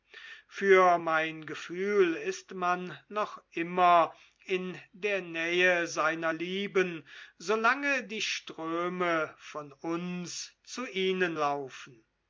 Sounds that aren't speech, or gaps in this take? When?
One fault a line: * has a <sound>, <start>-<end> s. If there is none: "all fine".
all fine